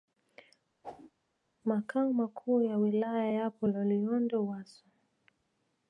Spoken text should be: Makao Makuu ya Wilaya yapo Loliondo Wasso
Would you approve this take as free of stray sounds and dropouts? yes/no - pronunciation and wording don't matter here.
no